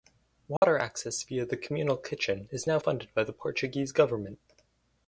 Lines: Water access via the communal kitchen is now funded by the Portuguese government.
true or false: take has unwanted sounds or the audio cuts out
true